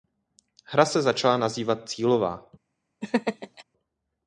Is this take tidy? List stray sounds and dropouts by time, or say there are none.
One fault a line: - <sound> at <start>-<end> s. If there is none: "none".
- laugh at 3.0-3.6 s